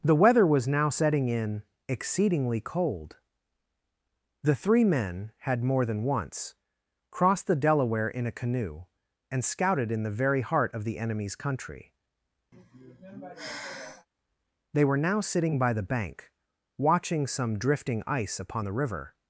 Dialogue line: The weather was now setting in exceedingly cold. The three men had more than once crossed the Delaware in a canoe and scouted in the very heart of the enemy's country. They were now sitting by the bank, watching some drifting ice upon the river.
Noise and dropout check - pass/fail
fail